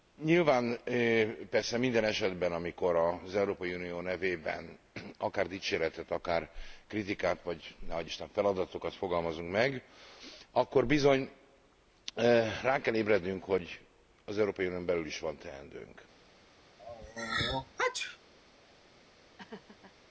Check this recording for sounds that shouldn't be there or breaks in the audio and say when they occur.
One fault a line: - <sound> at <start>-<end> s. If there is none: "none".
- sneeze at 16.8-18.2 s
- laugh at 19.4-19.9 s